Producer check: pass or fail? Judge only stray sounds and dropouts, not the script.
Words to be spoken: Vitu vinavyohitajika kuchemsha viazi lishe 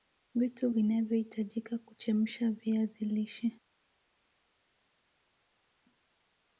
pass